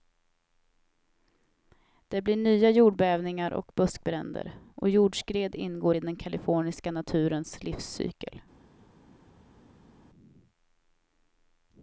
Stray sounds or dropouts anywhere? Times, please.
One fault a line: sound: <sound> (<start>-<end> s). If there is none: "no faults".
no faults